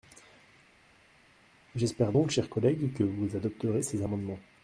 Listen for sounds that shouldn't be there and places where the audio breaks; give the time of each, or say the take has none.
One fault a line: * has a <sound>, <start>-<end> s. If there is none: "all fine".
all fine